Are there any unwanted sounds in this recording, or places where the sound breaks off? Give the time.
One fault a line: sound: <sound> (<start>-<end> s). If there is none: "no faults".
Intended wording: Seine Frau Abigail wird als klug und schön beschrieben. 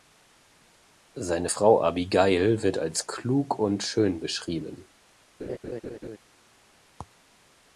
sound: laugh (5.4-6.2 s)